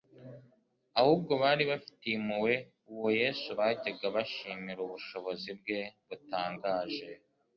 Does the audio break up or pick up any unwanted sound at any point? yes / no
no